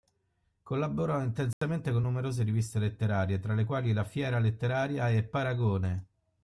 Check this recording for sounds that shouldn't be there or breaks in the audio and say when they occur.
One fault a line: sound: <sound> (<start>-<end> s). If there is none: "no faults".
sound: dropout (1.5-1.6 s)